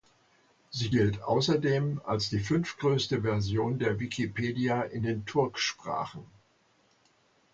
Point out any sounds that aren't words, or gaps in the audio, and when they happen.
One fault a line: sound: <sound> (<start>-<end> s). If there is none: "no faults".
no faults